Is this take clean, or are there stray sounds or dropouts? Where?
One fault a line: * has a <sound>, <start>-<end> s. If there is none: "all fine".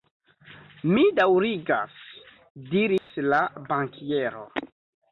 * has a dropout, 3.0-3.1 s